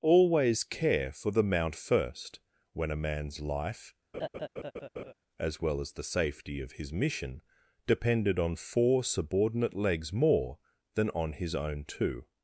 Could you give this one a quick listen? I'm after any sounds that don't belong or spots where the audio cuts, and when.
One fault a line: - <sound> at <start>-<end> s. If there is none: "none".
- laugh at 4.1-5.1 s